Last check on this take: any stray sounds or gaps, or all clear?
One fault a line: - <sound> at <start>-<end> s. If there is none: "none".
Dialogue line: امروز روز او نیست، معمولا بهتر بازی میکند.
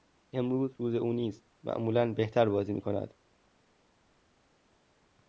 none